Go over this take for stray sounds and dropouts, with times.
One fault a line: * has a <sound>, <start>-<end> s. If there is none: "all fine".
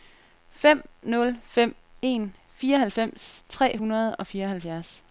all fine